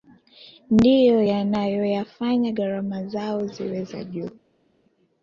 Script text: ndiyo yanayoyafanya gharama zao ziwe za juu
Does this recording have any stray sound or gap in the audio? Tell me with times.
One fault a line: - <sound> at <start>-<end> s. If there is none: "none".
none